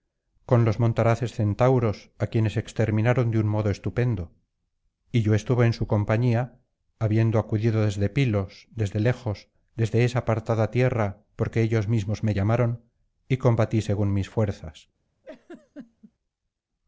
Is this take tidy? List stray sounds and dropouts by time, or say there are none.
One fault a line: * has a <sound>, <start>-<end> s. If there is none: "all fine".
* has a laugh, 15.2-16.1 s